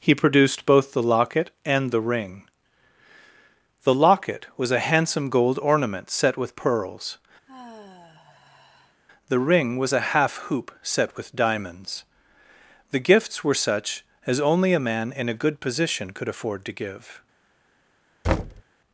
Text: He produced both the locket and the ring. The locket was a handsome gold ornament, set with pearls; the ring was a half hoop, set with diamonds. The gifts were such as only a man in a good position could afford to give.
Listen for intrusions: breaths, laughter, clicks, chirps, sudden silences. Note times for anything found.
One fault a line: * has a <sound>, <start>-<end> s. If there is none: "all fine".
* has a sigh, 7.5-9.0 s
* has a thud, 18.2-18.6 s